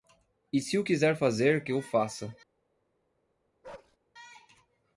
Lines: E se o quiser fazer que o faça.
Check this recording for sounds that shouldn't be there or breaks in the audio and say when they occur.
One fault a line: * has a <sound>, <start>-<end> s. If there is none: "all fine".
* has a bark, 3.6-4.0 s